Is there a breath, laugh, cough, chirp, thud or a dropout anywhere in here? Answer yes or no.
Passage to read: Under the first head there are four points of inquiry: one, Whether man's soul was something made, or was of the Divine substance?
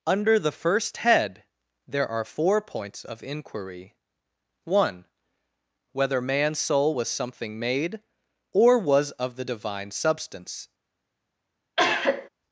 yes